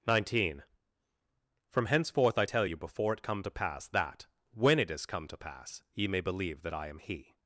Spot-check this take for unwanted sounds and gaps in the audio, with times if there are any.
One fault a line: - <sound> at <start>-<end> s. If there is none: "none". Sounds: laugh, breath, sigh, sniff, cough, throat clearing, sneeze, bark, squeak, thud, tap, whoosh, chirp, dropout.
none